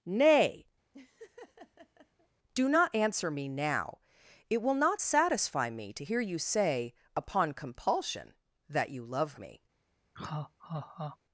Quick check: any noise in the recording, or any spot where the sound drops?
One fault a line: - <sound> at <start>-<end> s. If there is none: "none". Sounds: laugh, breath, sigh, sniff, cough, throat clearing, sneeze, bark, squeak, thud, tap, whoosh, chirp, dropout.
- laugh at 0.9-2.3 s
- laugh at 10.1-11.2 s